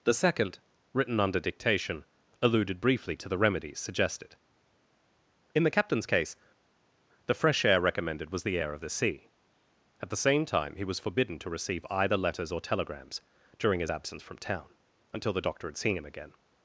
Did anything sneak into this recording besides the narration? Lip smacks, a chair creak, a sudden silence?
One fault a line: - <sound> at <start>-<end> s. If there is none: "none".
none